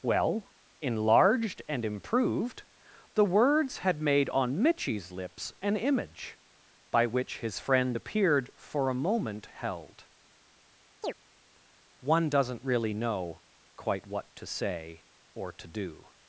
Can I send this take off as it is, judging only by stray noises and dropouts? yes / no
no